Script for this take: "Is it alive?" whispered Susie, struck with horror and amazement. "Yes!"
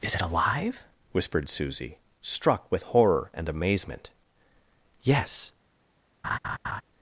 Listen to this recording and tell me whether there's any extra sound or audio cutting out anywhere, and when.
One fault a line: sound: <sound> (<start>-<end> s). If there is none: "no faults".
sound: laugh (6.2-6.8 s)